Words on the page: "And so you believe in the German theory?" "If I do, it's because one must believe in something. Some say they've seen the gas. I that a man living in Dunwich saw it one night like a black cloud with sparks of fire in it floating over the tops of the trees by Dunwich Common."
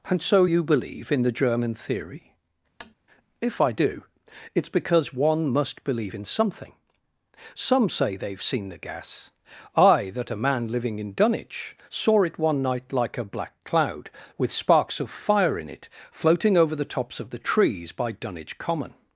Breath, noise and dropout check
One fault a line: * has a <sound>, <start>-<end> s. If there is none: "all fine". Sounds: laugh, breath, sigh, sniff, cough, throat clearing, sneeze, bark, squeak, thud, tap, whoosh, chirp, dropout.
* has a tap, 2.8-2.9 s